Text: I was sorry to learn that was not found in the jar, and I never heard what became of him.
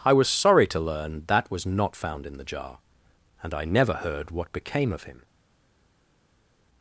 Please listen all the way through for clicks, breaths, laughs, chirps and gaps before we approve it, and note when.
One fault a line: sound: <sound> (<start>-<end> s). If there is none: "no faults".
no faults